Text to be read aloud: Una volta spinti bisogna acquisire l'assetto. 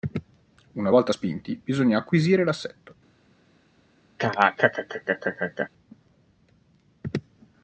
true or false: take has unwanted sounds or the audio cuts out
true